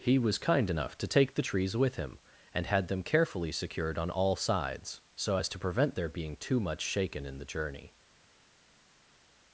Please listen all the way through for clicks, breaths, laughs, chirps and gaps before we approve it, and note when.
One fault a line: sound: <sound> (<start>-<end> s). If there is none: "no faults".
no faults